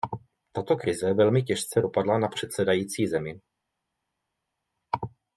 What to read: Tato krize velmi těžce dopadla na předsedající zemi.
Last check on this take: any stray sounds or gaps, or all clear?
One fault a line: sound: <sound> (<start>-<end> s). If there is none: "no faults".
no faults